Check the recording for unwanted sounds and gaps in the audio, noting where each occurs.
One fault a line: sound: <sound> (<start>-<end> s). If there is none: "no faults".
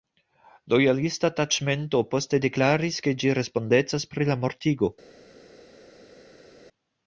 no faults